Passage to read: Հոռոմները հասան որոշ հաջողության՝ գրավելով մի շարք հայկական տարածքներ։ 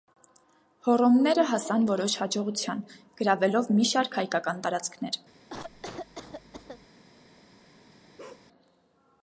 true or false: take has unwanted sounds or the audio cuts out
true